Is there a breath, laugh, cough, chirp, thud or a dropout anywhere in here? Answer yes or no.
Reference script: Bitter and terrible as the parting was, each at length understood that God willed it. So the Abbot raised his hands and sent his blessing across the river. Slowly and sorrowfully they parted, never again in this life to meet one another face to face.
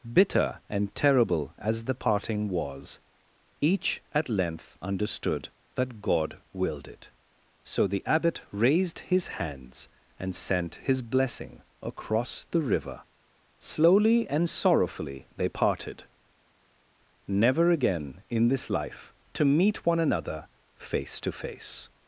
no